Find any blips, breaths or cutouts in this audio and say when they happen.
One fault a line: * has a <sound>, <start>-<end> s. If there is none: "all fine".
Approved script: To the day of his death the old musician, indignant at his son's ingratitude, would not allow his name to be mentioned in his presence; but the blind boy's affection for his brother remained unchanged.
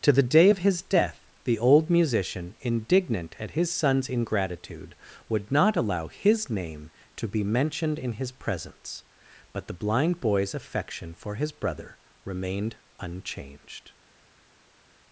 all fine